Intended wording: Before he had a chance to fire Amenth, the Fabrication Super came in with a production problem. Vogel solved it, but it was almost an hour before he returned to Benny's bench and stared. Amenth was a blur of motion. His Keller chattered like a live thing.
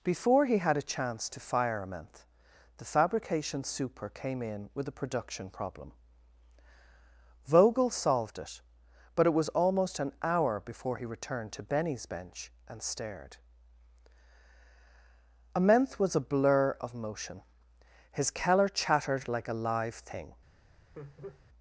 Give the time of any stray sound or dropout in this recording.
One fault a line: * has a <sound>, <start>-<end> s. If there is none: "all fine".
* has a laugh, 20.9-21.4 s